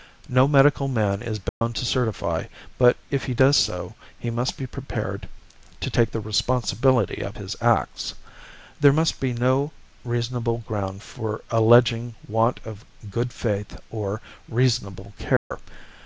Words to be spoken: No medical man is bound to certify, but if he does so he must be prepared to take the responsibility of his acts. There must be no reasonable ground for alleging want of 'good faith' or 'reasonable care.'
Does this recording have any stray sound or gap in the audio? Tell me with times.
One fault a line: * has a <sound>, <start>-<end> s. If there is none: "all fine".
* has a dropout, 1.5-1.6 s
* has a dropout, 15.4-15.5 s